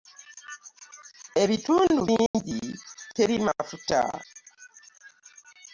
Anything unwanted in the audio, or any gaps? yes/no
yes